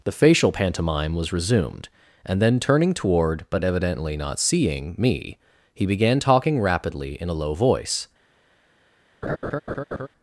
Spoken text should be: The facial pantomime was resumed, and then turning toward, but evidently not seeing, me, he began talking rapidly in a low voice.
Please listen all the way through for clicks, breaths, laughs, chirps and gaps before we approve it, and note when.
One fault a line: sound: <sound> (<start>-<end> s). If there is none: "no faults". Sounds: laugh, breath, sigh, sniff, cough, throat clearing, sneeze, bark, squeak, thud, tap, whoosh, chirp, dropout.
sound: laugh (9.2-10.1 s)